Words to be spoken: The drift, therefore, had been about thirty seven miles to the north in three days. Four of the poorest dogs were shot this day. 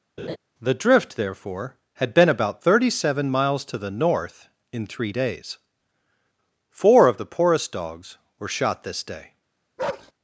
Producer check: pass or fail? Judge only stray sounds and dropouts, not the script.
fail